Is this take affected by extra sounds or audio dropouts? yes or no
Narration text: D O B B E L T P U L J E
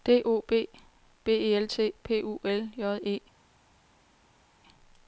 no